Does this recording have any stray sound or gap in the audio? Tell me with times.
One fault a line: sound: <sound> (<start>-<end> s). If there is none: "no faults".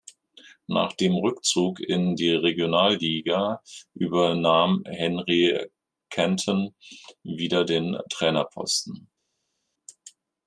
no faults